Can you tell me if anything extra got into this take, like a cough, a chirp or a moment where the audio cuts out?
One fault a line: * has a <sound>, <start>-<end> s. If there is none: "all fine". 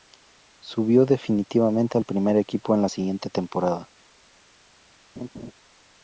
* has a laugh, 5.2-5.5 s